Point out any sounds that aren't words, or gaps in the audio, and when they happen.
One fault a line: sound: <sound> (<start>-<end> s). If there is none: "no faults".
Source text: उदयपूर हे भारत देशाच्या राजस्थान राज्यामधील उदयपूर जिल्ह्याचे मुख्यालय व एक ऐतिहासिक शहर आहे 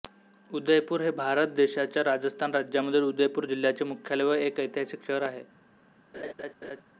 sound: laugh (6.1-6.8 s)